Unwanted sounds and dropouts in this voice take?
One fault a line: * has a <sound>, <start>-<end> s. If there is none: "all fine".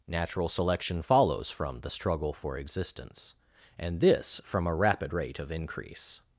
all fine